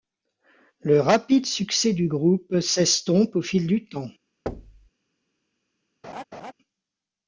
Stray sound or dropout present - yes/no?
yes